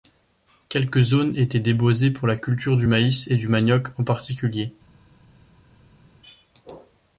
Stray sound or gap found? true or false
false